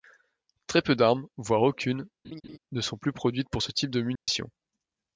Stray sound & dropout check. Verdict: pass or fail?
fail